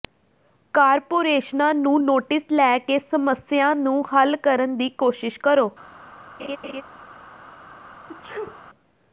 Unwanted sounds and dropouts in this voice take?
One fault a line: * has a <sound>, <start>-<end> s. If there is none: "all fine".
* has a laugh, 6.4-6.8 s
* has a sneeze, 8.1-8.6 s